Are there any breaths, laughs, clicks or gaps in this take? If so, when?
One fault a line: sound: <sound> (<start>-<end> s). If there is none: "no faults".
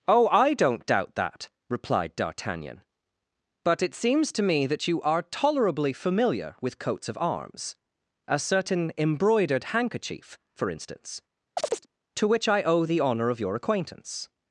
sound: chirp (11.6-11.9 s)